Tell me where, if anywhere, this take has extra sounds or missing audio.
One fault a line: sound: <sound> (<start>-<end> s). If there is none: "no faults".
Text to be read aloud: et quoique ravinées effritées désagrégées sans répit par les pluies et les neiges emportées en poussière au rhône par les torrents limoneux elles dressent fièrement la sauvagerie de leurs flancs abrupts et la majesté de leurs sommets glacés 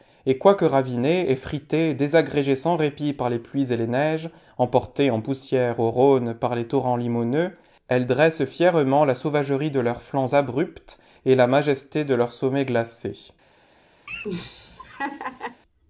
sound: laugh (14.1-15.6 s)